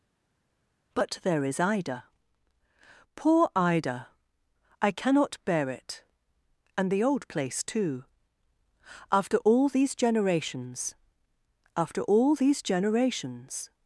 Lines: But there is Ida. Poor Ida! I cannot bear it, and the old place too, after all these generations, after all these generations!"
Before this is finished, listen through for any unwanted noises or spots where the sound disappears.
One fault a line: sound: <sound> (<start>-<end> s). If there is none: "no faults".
no faults